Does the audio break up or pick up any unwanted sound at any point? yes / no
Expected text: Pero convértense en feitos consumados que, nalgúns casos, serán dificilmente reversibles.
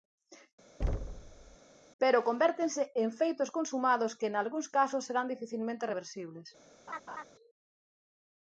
yes